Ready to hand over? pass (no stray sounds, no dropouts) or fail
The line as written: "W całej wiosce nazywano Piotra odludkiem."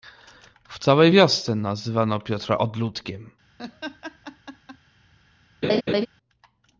fail